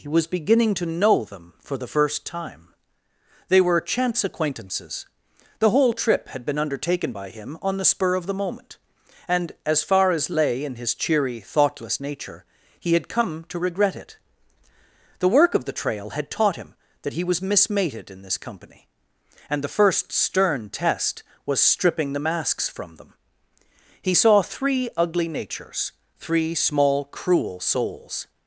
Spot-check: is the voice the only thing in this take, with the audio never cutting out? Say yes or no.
yes